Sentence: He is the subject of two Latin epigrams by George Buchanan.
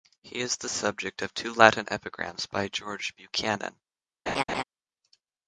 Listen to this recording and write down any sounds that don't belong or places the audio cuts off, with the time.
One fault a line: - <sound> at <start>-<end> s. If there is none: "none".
- laugh at 4.3-4.6 s